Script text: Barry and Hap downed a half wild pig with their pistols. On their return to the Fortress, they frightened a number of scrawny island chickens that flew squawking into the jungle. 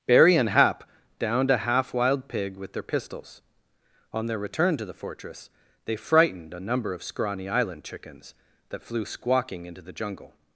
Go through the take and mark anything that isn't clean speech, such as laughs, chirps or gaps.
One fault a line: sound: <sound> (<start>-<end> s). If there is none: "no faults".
no faults